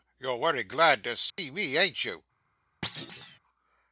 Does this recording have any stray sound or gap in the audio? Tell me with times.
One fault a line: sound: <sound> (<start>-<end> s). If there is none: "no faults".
sound: dropout (1.3-1.4 s)
sound: thud (2.8-3.4 s)